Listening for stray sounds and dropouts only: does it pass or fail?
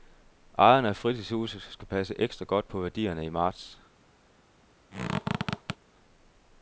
fail